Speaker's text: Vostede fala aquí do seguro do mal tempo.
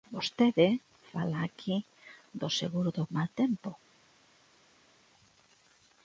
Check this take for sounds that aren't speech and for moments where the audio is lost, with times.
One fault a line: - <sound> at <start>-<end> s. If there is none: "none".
none